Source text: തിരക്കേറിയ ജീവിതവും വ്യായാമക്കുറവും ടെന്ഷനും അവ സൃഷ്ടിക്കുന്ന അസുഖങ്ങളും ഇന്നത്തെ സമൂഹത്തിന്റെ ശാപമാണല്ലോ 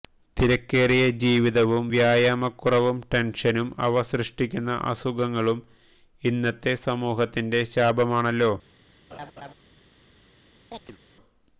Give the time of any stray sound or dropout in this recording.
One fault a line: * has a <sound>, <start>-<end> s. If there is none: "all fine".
* has a laugh, 9.1-9.5 s
* has a chirp, 10.7-11.0 s